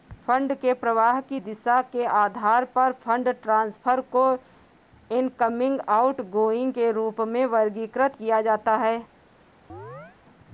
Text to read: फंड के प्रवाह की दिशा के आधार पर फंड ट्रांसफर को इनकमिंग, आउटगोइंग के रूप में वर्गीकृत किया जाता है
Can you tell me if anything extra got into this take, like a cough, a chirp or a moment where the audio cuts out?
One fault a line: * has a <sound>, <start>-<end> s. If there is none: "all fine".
* has a chirp, 9.7-10.2 s